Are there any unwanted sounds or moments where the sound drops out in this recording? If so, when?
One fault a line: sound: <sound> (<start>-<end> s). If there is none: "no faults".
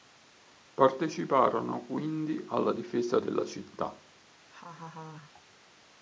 sound: laugh (4.5-5.4 s)